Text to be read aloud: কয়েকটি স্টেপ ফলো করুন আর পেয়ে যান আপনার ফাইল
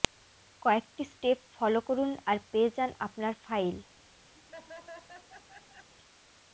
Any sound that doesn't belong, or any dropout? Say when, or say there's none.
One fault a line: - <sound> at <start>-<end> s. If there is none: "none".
- laugh at 4.3-5.9 s